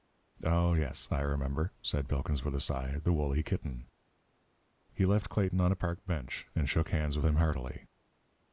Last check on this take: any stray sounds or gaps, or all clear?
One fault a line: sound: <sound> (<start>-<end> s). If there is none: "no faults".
no faults